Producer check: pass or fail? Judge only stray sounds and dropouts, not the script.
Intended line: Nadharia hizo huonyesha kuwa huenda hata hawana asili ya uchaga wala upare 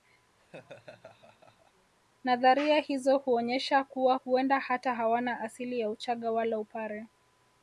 fail